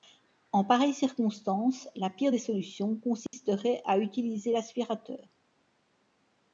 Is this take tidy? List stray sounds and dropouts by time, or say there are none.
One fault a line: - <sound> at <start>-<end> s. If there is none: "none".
- dropout at 3.3-3.3 s